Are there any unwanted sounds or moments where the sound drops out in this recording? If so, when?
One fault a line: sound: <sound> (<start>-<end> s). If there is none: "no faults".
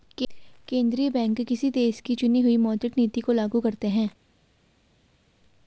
no faults